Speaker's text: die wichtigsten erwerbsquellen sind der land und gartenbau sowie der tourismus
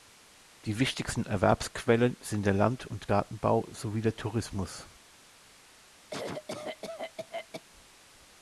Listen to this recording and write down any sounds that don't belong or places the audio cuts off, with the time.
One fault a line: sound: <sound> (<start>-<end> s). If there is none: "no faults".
sound: cough (6.1-7.6 s)